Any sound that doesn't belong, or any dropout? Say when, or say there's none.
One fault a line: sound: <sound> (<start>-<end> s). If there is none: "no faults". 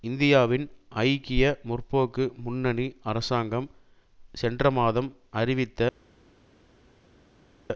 no faults